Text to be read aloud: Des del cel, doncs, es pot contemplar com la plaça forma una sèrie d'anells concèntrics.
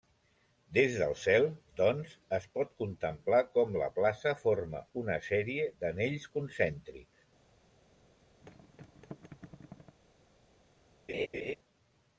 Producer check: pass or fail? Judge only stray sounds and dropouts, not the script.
fail